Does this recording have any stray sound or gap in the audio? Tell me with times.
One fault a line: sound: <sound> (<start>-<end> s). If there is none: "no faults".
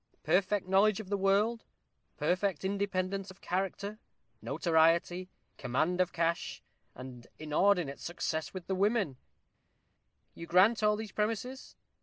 no faults